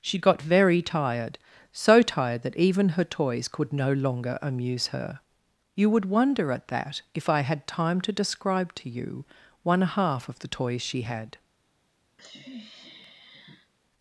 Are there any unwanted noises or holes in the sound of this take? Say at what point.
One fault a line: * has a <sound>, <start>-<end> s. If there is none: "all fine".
* has a sniff, 12.2-13.7 s